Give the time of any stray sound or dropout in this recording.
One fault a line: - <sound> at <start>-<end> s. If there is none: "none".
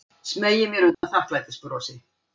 - dropout at 0.9-1.0 s